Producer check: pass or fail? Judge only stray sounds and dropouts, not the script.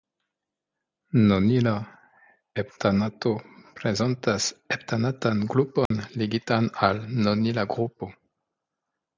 fail